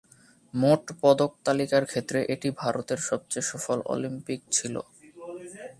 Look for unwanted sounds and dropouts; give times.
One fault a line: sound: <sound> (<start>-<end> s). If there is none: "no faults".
no faults